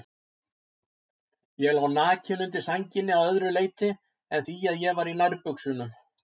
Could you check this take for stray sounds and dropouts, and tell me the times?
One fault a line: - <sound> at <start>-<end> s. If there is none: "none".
none